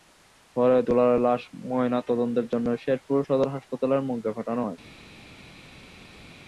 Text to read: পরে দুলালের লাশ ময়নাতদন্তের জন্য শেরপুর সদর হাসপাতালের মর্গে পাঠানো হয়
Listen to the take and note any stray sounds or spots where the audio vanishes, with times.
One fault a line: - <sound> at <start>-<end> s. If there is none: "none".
none